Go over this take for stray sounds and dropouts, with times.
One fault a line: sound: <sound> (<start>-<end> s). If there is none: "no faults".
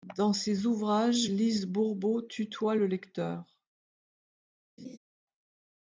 sound: laugh (4.8-5.0 s)